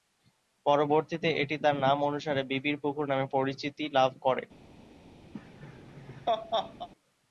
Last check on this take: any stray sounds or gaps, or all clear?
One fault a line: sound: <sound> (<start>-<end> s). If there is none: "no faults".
sound: laugh (5.3-6.9 s)